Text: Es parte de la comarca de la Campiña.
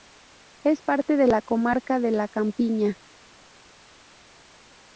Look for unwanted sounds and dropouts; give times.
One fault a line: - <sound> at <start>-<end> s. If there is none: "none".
none